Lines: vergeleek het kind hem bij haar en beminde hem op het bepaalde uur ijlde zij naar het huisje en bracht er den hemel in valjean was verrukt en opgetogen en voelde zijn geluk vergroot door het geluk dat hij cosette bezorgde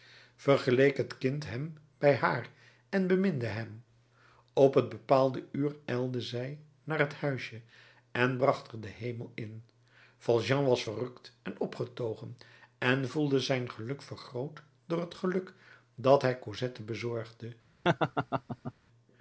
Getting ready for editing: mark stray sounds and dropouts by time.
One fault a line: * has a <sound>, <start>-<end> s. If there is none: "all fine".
* has a laugh, 17.8-18.7 s